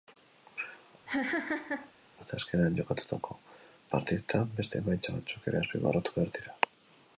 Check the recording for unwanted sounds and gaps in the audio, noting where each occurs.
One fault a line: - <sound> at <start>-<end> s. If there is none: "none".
- laugh at 1.1-1.9 s